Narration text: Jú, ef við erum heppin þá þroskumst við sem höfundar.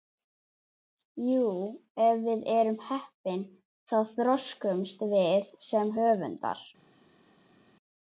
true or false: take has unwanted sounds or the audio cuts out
false